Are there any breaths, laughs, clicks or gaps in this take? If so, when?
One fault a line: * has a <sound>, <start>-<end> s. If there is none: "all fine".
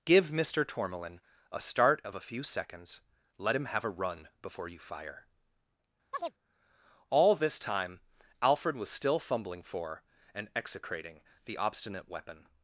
* has a chirp, 6.1-6.3 s